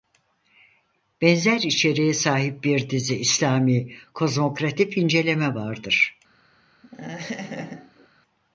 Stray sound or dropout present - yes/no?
yes